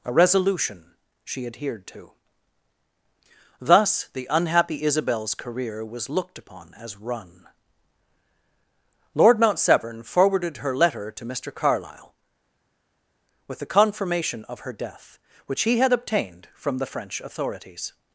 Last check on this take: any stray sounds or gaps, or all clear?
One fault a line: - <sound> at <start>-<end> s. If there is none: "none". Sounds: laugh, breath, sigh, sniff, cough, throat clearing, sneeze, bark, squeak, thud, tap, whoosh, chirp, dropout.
none